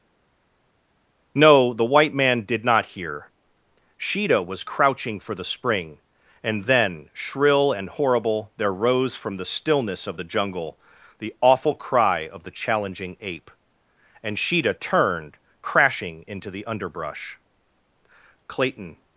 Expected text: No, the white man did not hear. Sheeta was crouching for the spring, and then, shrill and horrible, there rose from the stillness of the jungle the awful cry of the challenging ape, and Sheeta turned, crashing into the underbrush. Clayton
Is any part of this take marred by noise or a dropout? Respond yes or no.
no